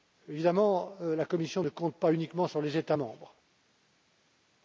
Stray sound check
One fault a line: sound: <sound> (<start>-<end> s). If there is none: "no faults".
no faults